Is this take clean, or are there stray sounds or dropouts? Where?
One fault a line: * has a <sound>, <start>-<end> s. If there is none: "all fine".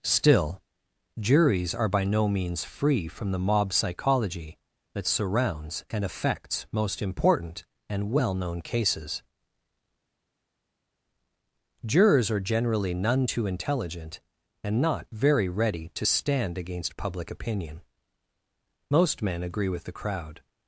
all fine